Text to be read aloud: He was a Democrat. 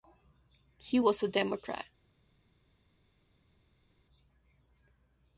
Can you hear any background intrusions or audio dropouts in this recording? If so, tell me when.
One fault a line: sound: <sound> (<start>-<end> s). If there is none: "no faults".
no faults